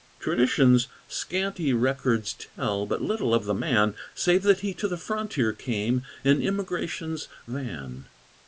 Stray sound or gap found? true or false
false